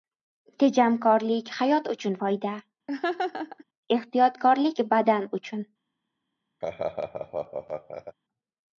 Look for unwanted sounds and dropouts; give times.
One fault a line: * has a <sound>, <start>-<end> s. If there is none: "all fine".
* has a laugh, 2.9-3.6 s
* has a laugh, 6.6-8.2 s